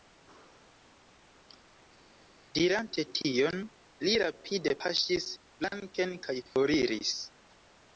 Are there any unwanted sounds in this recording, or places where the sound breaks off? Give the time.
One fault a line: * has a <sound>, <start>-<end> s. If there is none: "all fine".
all fine